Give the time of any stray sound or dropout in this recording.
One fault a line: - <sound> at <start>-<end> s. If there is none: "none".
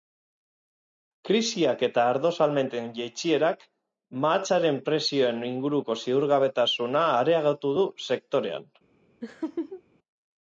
- laugh at 9.2-9.8 s